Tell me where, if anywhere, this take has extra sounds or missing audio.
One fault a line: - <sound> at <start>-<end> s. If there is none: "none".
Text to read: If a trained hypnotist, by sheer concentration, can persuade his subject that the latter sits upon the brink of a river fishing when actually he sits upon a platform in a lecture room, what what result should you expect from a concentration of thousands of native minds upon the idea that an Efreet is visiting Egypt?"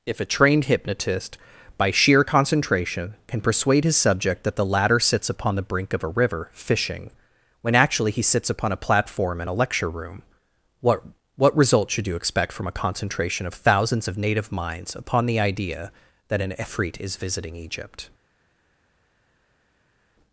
none